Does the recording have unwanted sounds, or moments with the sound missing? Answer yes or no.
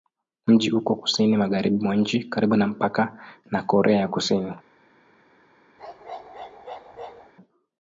yes